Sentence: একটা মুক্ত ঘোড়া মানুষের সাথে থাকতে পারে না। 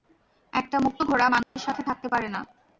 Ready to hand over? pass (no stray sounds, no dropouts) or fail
fail